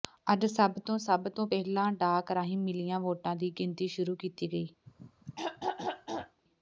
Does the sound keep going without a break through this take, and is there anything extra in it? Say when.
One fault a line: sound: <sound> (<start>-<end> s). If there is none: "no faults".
sound: throat clearing (4.9-6.4 s)